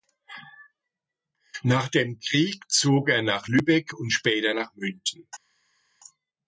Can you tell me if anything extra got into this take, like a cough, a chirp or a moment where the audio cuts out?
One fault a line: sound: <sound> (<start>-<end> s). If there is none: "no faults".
no faults